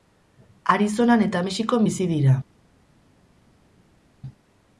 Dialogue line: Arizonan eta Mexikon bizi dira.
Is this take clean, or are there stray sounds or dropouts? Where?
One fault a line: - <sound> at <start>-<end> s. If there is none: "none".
none